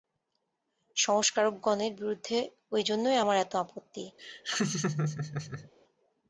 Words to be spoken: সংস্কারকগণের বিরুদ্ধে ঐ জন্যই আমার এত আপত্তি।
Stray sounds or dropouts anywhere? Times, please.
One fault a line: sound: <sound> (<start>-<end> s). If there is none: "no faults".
sound: laugh (4.2-5.7 s)